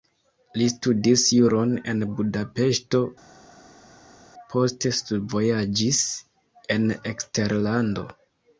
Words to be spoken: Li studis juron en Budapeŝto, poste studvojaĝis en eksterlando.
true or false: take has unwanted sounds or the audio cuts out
false